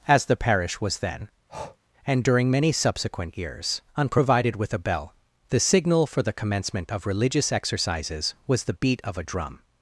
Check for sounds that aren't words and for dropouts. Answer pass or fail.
fail